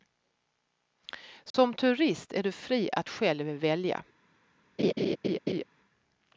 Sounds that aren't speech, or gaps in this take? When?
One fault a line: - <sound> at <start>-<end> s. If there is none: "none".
- dropout at 1.5-1.5 s
- laugh at 4.8-5.6 s